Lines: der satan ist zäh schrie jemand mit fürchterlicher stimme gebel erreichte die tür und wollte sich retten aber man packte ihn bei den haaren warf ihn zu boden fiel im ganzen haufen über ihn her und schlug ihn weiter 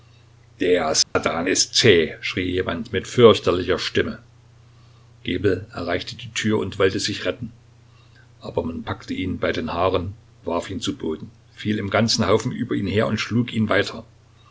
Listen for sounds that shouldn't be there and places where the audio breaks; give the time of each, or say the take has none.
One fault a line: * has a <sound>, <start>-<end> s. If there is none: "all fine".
* has a dropout, 1.0-1.2 s